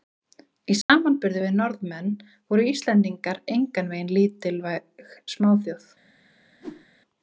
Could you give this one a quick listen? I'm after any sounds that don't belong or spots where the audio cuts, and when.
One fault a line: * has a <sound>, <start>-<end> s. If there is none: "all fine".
* has a dropout, 0.8-0.9 s
* has a whoosh, 6.6-6.9 s